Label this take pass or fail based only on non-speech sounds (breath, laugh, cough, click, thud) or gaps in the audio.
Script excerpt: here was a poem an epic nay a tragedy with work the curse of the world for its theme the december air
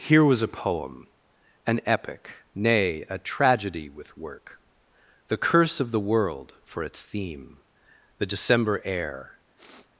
fail